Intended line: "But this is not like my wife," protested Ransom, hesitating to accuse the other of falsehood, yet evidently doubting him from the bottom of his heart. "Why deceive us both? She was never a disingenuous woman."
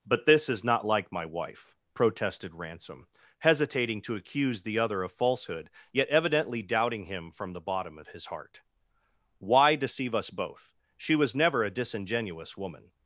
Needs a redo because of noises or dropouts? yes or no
no